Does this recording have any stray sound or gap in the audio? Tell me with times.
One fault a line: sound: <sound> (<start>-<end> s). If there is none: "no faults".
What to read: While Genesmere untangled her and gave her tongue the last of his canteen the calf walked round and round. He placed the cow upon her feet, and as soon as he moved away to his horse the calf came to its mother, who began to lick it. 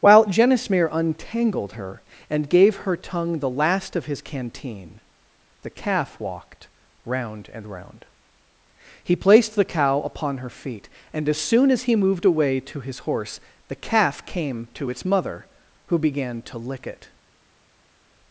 no faults